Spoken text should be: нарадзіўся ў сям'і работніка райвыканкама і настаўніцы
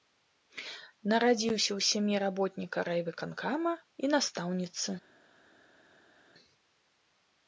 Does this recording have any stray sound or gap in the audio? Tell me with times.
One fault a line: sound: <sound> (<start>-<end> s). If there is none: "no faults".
no faults